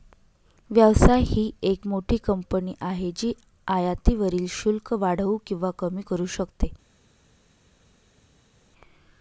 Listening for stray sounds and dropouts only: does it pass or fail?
pass